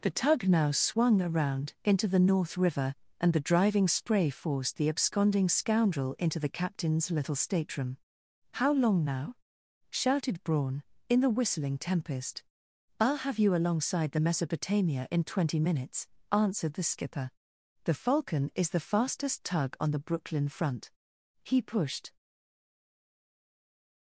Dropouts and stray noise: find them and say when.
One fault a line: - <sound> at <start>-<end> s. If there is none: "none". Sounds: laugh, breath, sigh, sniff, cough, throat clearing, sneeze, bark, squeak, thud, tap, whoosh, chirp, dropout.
none